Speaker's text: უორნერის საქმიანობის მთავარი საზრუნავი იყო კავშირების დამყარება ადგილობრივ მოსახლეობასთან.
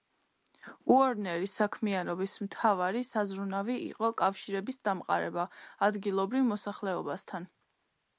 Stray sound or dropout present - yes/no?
no